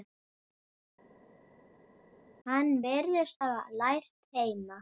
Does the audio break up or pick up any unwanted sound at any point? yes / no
no